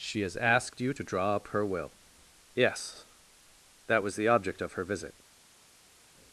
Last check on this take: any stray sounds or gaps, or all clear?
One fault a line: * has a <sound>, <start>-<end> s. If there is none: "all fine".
all fine